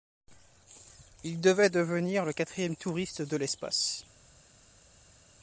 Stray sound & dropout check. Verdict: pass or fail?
pass